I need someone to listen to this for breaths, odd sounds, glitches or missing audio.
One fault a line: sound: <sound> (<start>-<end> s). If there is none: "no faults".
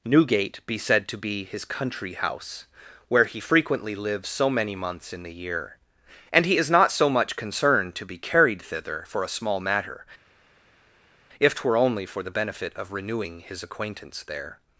no faults